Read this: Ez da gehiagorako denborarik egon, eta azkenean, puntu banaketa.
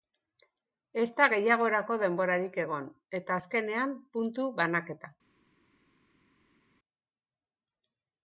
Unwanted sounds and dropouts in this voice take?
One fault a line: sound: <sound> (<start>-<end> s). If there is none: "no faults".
no faults